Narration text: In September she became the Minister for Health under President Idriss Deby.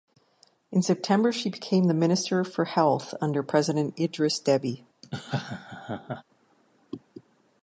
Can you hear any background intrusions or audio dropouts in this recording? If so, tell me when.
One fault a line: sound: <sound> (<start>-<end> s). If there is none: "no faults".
sound: laugh (5.0-6.2 s)